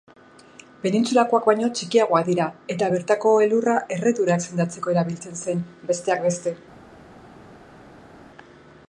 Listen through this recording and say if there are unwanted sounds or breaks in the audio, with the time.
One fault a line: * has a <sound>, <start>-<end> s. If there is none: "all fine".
all fine